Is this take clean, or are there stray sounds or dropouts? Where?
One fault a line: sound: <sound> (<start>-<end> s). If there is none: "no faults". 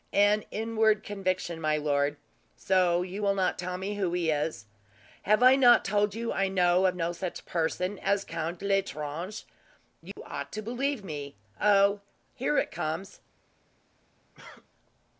sound: dropout (10.1-10.2 s)
sound: cough (14.3-14.7 s)